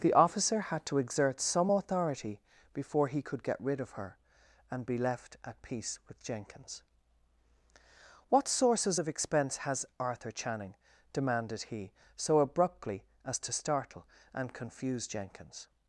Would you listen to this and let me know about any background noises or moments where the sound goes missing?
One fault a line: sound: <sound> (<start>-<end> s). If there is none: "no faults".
no faults